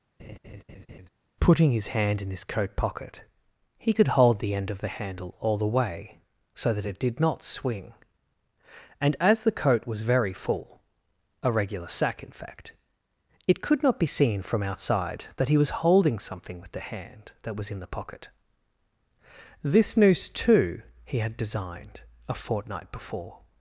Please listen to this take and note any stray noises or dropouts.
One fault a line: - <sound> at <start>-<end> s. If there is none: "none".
- laugh at 0.2-1.1 s